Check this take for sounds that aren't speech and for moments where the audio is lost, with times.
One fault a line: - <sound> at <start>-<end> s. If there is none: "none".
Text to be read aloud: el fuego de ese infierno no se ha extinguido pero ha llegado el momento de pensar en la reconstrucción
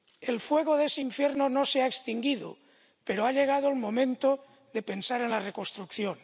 none